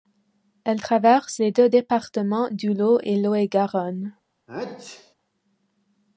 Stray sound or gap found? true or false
true